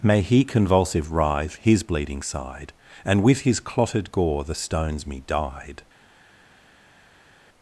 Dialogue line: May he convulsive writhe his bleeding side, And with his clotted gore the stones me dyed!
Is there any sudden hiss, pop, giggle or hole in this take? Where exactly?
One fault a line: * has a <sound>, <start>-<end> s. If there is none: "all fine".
all fine